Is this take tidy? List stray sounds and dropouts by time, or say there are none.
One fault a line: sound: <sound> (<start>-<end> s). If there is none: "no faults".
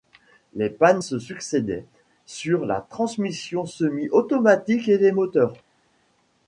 no faults